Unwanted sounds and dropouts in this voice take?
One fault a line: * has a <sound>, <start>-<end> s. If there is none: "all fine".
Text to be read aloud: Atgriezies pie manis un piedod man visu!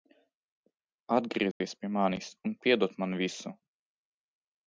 * has a dropout, 1.5-1.6 s